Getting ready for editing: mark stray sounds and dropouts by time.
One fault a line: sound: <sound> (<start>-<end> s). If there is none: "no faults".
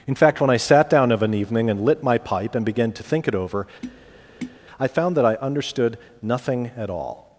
sound: tap (3.8-4.6 s)